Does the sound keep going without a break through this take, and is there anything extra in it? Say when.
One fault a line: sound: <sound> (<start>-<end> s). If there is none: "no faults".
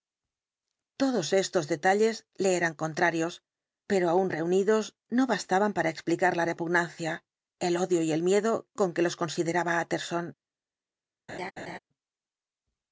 sound: laugh (11.3-11.8 s)